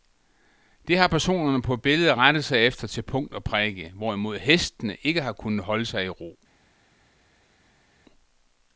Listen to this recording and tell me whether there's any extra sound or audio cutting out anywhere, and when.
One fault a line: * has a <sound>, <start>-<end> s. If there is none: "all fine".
all fine